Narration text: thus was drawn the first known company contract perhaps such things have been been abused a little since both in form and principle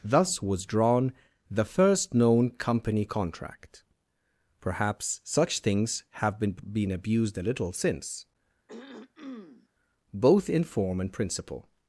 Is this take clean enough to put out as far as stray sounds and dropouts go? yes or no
no